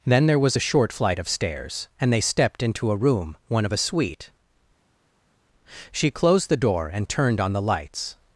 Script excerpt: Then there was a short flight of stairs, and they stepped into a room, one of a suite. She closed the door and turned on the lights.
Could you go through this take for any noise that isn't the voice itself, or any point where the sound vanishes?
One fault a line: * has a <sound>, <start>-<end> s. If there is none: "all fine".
all fine